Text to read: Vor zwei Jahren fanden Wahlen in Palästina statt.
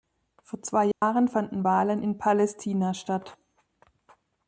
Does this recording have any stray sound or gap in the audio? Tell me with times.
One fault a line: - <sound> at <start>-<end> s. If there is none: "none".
- dropout at 0.9-1.0 s